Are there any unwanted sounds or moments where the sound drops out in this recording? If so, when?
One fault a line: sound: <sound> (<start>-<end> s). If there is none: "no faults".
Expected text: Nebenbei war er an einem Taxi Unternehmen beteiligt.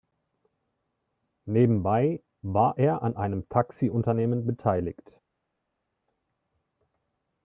no faults